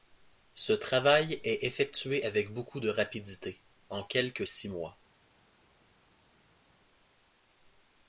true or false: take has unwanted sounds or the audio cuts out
false